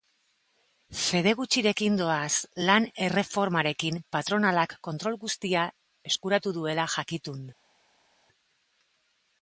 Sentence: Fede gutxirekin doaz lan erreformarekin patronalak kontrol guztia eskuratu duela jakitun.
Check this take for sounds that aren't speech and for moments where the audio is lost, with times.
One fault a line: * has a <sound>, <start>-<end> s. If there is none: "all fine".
all fine